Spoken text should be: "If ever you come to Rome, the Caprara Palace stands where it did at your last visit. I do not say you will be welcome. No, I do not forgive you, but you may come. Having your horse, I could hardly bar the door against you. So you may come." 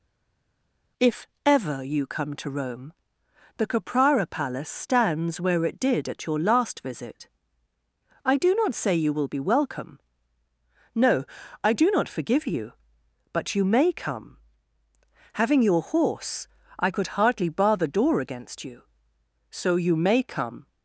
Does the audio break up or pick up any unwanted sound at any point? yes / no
no